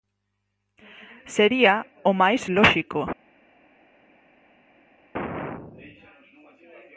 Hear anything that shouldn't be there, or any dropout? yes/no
no